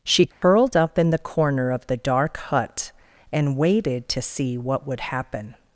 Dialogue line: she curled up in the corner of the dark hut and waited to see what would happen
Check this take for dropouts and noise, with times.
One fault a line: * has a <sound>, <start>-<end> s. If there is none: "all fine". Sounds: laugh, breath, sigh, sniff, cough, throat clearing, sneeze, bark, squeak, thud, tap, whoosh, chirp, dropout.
* has a dropout, 0.3-0.4 s